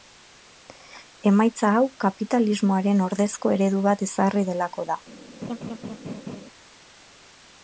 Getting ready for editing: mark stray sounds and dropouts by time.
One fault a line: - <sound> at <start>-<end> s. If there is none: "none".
- laugh at 5.4-6.4 s